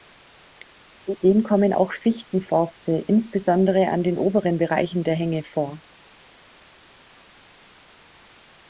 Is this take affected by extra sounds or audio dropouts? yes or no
no